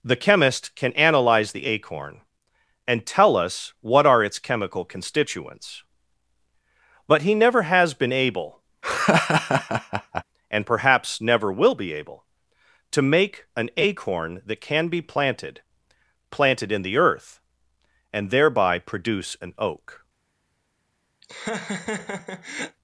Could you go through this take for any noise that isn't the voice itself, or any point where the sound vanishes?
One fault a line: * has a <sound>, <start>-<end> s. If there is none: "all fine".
* has a laugh, 8.8-10.2 s
* has a laugh, 21.2-22.8 s